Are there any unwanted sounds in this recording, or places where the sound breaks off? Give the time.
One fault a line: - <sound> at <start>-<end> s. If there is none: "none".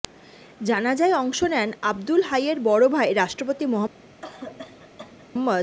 - cough at 4.2-5.3 s